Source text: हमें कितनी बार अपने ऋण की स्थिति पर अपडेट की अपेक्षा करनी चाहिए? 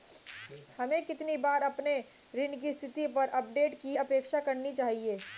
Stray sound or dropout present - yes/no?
no